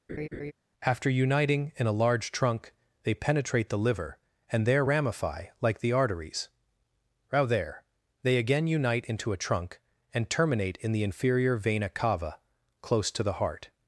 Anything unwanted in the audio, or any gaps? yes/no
yes